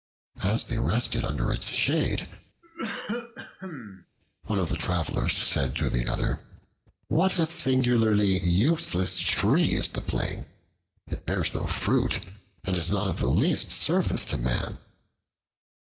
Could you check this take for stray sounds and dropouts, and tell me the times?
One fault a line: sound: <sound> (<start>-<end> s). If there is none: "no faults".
sound: cough (2.6-4.1 s)